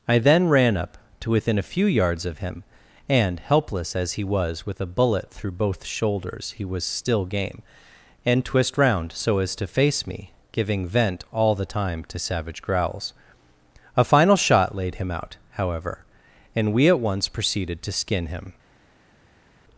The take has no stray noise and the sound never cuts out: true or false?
true